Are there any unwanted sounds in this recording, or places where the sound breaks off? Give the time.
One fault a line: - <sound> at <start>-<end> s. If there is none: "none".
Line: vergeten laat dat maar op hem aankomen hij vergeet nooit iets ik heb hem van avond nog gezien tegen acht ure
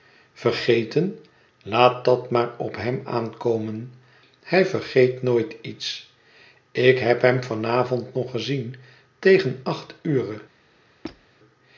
- squeak at 11.0-11.3 s